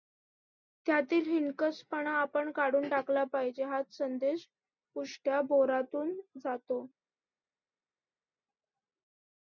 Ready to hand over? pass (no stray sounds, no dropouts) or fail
pass